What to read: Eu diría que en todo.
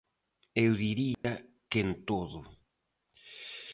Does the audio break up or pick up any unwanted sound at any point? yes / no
yes